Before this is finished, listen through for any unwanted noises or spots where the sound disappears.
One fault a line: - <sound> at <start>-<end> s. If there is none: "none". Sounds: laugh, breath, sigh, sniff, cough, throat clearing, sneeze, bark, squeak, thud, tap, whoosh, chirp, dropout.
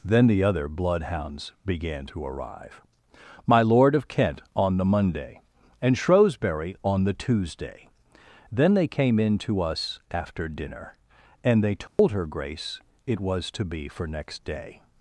- dropout at 11.9-12.0 s